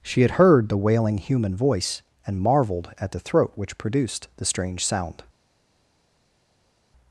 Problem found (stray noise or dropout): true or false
false